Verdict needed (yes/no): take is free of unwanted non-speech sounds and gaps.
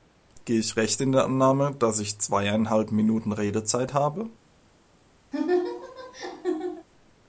no